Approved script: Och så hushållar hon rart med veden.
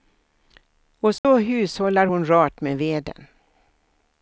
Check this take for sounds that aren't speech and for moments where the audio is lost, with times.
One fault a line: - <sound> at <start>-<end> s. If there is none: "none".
- dropout at 1.2-1.2 s